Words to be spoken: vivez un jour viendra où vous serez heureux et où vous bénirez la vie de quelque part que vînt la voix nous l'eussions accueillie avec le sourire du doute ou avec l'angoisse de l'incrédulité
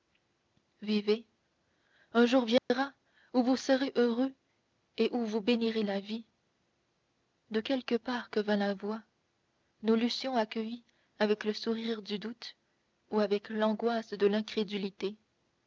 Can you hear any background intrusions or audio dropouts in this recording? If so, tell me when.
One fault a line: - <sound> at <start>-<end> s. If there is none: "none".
- dropout at 2.6-2.7 s